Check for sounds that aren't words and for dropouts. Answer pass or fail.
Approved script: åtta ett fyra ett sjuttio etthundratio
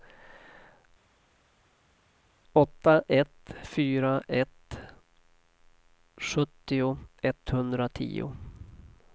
pass